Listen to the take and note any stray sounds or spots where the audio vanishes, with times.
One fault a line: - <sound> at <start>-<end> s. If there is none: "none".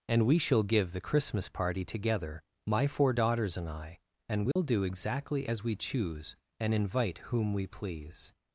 - dropout at 4.5-4.6 s